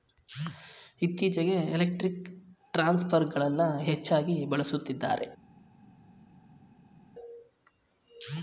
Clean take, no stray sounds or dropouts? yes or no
yes